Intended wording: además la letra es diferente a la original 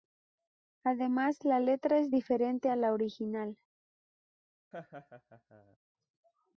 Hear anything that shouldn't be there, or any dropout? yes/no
yes